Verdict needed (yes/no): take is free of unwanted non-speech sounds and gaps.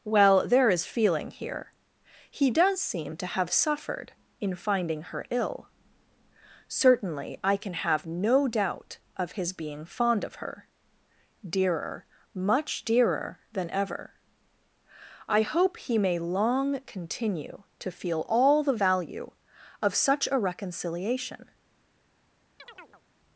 no